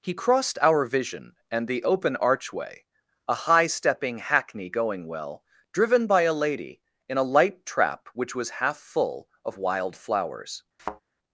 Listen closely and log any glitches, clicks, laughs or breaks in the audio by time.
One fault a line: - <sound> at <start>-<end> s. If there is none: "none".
- thud at 10.8-11.0 s